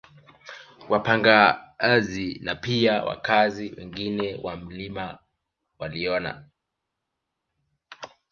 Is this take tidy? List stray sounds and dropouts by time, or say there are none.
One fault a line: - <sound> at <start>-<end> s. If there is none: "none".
none